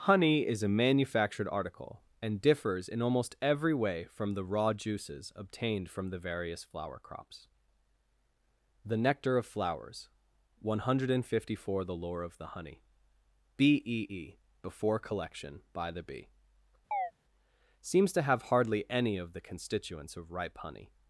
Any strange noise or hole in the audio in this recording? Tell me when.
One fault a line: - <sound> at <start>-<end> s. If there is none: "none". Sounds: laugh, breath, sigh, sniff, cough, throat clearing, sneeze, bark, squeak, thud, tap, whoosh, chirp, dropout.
- chirp at 16.9-17.1 s